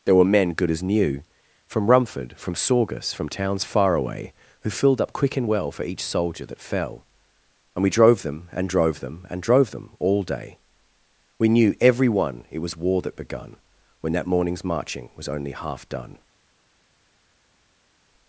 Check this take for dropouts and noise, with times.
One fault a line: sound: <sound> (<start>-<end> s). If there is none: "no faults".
no faults